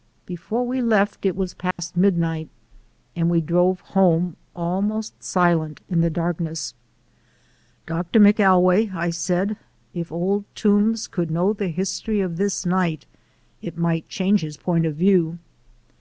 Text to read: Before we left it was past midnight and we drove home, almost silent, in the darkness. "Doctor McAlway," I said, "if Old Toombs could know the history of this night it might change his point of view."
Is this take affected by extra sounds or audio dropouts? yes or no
yes